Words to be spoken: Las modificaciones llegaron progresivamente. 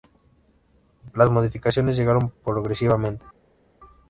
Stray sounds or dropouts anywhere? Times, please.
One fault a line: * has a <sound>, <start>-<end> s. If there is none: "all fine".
all fine